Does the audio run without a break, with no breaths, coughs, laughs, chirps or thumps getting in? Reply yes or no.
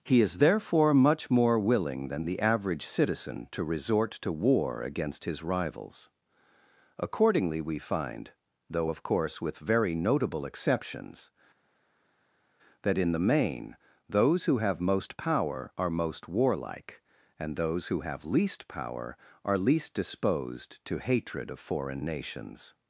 yes